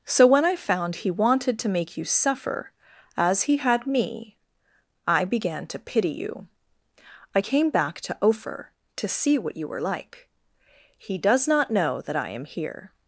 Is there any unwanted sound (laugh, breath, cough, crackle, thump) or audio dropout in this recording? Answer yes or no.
no